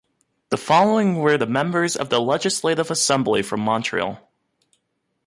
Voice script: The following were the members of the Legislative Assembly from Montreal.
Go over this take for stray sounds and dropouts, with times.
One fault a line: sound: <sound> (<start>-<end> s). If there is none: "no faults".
no faults